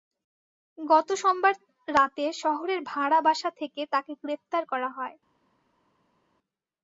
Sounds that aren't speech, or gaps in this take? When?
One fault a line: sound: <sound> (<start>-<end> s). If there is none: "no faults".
no faults